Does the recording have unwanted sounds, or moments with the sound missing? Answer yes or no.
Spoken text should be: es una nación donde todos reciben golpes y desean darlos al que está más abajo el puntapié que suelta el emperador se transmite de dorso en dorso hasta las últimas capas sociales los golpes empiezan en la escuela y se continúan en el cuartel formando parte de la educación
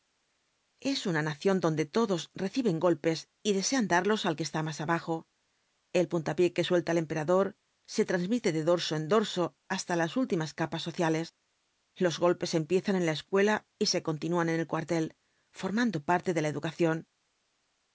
no